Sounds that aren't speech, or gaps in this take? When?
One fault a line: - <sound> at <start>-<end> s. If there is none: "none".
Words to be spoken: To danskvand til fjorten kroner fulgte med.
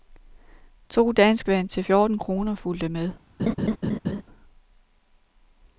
- laugh at 3.4-4.2 s